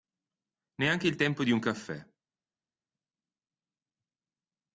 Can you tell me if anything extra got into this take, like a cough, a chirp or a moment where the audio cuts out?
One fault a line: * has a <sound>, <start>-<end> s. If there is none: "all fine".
all fine